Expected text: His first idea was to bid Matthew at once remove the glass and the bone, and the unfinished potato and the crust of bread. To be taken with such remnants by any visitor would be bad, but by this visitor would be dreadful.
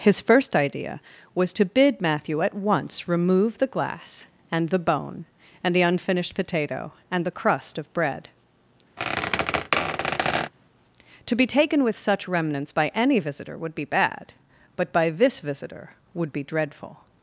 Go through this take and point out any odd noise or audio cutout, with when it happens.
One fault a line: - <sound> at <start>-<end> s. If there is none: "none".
- squeak at 9.0-10.5 s